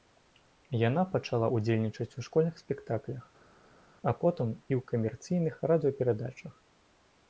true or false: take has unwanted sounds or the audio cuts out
false